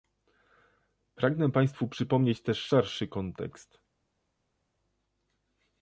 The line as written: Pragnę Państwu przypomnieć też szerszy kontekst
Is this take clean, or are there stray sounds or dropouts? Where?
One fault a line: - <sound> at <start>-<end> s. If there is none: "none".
none